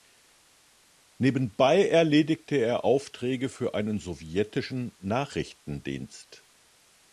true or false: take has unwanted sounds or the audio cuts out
false